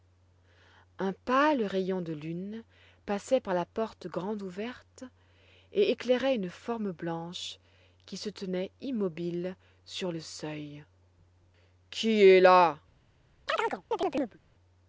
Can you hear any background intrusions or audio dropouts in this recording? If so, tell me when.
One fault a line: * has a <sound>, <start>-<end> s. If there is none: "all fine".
* has a chirp, 13.5-14.4 s